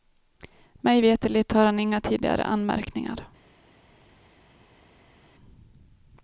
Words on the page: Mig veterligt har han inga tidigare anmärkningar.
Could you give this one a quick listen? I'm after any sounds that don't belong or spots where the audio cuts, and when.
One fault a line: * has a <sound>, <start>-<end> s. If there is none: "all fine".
all fine